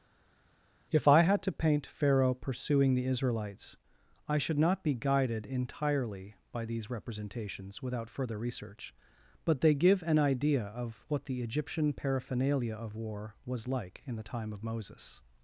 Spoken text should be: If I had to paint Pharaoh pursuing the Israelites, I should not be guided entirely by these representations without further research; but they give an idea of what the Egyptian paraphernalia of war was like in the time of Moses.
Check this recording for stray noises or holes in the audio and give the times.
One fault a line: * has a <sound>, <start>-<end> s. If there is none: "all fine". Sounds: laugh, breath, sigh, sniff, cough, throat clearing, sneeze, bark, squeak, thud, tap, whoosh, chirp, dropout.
all fine